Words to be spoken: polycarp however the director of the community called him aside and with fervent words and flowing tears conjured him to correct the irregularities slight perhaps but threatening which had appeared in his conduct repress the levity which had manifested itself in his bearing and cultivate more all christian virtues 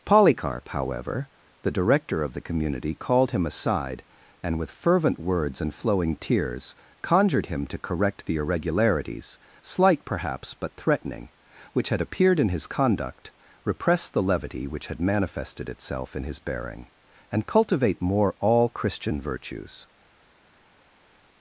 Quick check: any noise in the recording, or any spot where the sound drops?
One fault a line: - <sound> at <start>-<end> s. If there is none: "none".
none